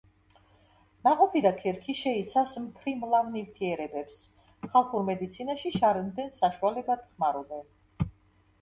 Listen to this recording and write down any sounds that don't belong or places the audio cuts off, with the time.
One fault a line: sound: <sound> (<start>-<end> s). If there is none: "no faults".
no faults